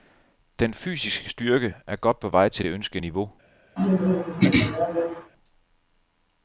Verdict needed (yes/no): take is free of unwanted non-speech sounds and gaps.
no